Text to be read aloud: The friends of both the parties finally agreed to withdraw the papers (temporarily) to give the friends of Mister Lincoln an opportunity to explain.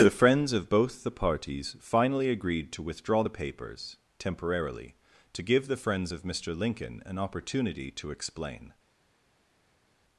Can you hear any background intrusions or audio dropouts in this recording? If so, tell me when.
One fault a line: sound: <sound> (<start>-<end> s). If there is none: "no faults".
no faults